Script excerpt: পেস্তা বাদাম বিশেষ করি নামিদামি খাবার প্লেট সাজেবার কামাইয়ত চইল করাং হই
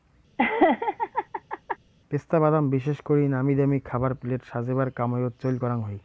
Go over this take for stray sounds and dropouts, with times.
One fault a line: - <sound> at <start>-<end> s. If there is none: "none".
- laugh at 0.4-1.8 s